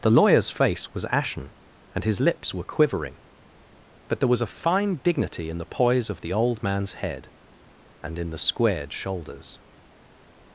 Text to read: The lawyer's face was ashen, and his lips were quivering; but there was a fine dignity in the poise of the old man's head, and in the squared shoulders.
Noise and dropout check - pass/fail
pass